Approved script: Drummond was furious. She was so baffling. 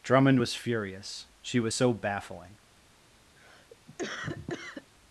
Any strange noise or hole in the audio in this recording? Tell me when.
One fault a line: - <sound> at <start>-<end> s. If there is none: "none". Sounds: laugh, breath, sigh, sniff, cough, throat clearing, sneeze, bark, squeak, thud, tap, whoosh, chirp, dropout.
- cough at 3.4-4.9 s